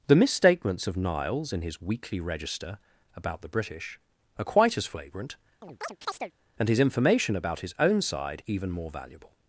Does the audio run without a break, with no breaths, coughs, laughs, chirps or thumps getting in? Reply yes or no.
no